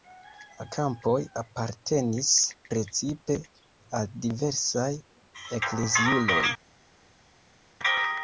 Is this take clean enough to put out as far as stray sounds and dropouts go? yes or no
yes